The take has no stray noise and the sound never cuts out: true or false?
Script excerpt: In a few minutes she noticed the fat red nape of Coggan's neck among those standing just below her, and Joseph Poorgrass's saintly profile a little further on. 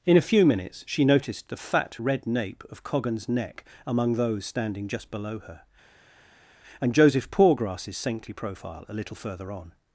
true